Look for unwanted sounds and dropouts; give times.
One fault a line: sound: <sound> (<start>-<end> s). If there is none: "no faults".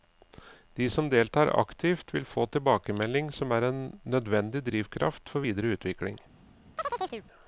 sound: chirp (6.8-7.3 s)